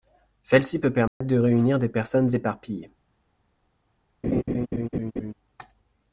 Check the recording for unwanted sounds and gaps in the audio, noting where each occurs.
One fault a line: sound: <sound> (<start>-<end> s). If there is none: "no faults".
sound: dropout (1.1-1.2 s)
sound: laugh (4.2-5.3 s)